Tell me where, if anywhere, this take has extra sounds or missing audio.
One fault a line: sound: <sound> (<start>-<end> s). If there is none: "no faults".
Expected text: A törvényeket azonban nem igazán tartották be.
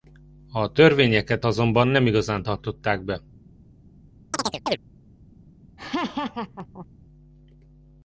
sound: chirp (4.3-4.8 s)
sound: laugh (5.8-6.9 s)